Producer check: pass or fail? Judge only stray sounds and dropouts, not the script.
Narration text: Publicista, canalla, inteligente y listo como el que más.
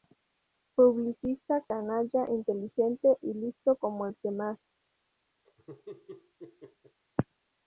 fail